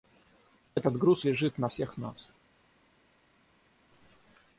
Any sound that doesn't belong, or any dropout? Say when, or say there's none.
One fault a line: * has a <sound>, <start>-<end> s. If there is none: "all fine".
all fine